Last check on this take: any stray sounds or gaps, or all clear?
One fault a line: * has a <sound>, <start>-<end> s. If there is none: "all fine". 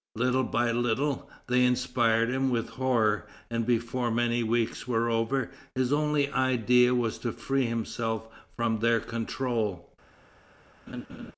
* has a laugh, 10.9-11.3 s